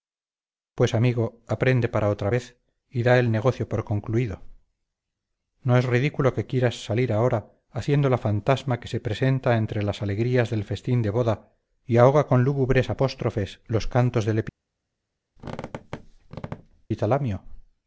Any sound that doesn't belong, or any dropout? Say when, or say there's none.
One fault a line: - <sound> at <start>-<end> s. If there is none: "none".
- squeak at 15.4-16.9 s